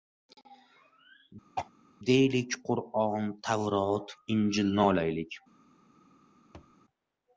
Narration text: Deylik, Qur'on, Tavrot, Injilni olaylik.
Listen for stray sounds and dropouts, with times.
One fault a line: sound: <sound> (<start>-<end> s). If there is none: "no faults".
sound: throat clearing (1.6-1.7 s)
sound: thud (6.5-6.8 s)